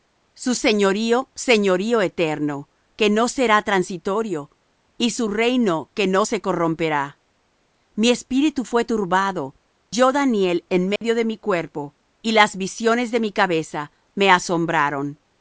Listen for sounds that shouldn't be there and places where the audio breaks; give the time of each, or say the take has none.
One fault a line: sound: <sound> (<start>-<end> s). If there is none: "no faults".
sound: dropout (11.0-11.0 s)